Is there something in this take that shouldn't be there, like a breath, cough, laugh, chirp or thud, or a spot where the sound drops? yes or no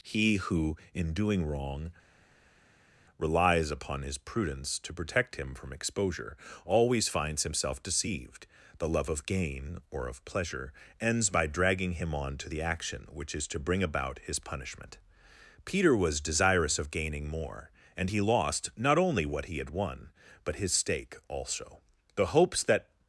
no